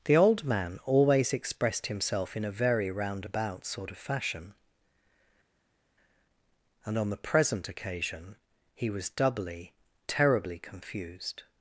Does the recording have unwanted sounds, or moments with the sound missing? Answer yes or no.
no